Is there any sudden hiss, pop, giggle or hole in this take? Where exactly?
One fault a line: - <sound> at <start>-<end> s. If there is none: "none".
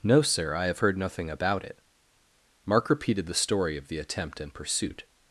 none